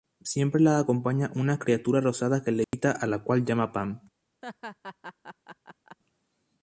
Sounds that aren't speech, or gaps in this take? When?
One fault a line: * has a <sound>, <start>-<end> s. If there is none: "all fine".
* has a dropout, 2.6-2.7 s
* has a laugh, 4.4-6.0 s